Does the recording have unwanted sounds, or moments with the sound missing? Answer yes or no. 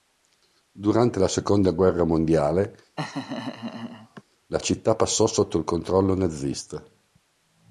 yes